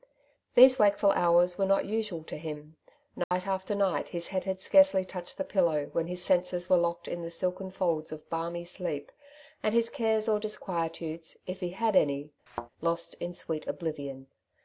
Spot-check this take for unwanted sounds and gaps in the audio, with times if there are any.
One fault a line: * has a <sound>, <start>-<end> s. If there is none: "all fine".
* has a dropout, 3.2-3.3 s
* has a thud, 12.5-12.7 s